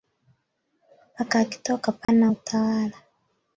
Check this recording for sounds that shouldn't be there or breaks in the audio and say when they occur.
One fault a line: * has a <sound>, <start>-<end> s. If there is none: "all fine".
* has a dropout, 2.0-2.1 s